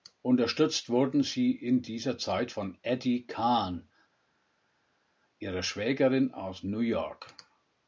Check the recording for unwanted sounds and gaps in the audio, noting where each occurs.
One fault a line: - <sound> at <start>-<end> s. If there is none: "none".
none